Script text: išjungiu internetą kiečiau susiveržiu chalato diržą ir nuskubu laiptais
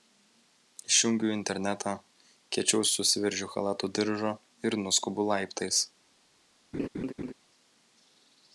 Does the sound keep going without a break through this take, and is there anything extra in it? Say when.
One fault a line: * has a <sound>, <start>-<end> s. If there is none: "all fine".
* has a laugh, 6.7-7.3 s